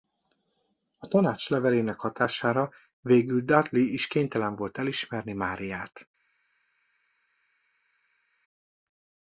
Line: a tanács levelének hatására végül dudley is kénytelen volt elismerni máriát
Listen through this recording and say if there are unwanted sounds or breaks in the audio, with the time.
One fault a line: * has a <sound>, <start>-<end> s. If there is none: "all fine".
all fine